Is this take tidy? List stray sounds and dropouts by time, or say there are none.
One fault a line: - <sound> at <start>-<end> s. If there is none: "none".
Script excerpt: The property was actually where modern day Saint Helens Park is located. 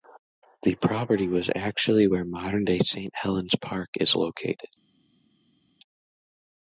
none